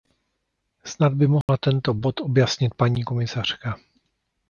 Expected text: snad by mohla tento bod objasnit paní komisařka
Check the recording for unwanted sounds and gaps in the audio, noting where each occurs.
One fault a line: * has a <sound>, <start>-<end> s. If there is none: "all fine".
* has a dropout, 1.4-1.5 s